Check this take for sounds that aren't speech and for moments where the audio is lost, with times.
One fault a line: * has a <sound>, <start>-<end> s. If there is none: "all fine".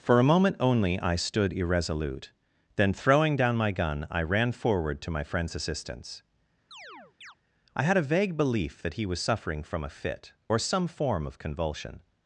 * has a chirp, 6.7-7.4 s